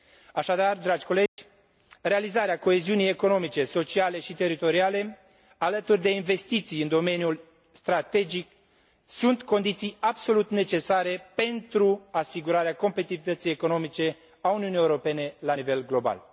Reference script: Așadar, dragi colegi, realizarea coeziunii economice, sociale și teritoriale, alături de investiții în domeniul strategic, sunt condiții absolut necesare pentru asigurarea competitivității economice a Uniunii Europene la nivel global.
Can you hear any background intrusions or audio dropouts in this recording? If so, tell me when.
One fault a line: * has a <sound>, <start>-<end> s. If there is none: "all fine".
* has a dropout, 1.3-1.4 s